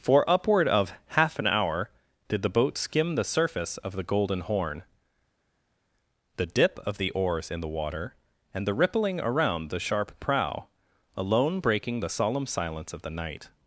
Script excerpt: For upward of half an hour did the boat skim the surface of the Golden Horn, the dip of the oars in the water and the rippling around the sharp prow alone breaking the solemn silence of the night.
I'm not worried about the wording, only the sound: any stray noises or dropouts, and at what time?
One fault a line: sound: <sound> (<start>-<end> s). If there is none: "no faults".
no faults